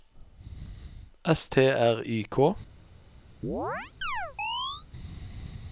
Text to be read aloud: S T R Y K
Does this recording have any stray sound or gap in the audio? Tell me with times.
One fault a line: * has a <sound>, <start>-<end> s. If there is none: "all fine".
* has a chirp, 3.4-4.9 s